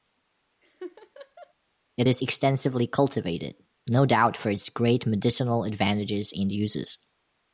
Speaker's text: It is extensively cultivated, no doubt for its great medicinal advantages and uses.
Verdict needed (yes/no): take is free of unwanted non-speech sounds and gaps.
no